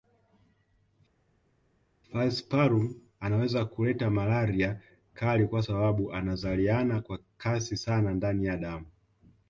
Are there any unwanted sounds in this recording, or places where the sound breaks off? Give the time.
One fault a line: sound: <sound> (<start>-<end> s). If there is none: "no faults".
no faults